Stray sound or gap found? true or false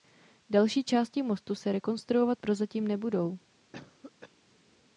true